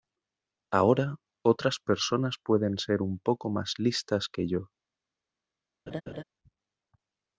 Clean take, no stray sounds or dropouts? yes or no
no